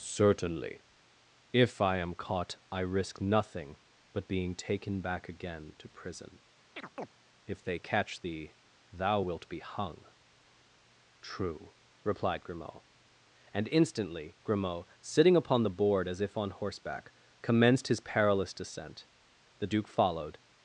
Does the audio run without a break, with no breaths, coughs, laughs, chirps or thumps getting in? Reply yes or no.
no